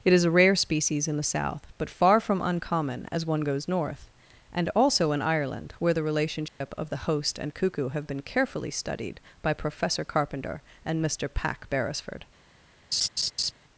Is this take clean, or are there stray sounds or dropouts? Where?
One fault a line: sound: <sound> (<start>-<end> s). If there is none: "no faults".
sound: dropout (6.5-6.6 s)
sound: laugh (12.9-13.5 s)